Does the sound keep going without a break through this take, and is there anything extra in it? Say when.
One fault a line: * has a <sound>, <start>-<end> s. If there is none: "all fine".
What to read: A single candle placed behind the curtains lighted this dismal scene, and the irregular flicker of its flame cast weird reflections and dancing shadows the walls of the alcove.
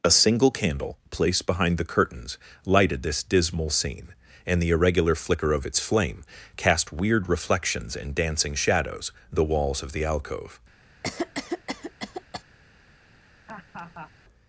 * has a cough, 11.0-12.4 s
* has a laugh, 13.5-14.1 s